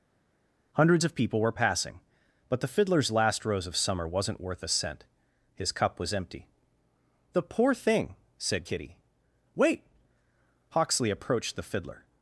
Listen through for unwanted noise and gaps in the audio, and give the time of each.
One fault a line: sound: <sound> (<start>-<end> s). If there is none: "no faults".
no faults